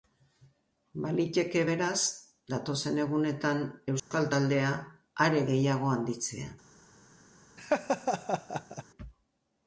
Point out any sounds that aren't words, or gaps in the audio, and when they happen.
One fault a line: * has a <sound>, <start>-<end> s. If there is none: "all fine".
* has a dropout, 4.0-4.1 s
* has a laugh, 7.6-8.8 s